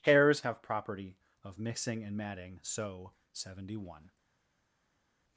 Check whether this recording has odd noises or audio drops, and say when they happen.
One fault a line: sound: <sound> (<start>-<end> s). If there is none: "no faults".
no faults